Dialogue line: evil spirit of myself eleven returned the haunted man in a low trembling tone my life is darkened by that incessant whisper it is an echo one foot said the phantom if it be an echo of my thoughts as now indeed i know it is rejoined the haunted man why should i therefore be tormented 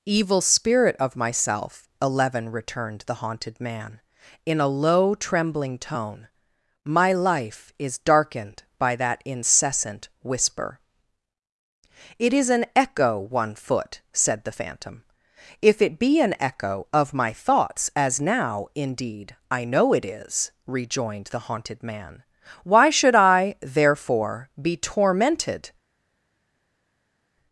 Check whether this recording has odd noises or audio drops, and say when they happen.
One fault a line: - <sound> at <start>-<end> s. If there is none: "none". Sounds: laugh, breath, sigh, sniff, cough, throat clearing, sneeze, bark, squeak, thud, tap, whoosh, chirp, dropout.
none